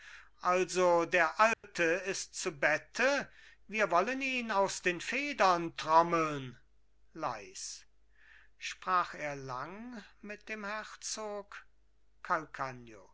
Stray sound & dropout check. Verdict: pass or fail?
fail